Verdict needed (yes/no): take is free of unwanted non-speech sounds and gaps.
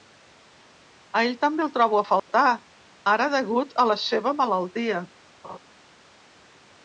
no